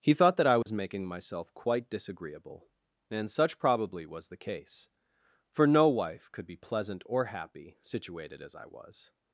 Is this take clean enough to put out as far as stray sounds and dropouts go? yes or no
no